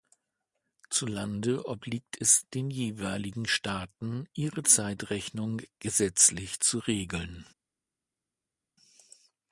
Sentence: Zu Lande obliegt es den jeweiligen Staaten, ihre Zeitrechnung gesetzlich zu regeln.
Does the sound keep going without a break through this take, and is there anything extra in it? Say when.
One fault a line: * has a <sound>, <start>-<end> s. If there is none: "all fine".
all fine